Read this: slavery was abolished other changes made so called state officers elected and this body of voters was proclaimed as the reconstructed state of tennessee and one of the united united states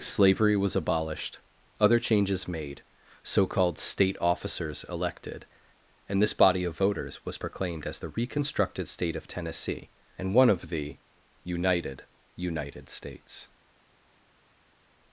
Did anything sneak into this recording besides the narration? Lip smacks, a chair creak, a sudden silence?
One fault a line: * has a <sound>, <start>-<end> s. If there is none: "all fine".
all fine